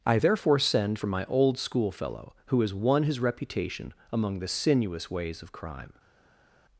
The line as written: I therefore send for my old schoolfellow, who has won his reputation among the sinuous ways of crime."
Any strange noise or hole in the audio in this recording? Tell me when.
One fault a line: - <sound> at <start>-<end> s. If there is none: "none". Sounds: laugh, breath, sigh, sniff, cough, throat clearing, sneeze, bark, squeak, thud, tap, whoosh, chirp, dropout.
none